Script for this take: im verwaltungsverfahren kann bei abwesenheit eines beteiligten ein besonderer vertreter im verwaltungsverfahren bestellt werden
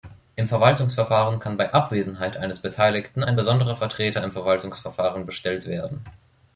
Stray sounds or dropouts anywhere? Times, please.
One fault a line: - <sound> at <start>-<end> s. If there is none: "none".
none